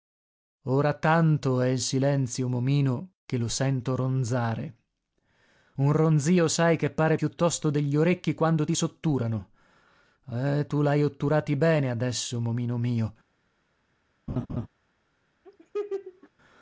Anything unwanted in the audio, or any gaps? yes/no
yes